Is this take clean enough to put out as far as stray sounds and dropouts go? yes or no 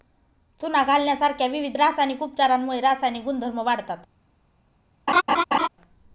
no